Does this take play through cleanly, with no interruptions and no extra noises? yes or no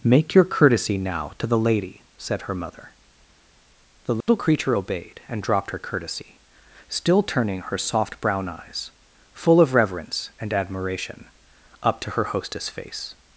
no